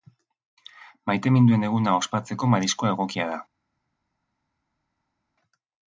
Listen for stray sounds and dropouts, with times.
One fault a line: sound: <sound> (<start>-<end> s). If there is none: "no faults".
no faults